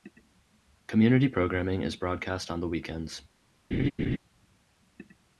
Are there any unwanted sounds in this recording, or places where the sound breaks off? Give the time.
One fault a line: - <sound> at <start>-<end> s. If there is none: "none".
- laugh at 3.7-4.2 s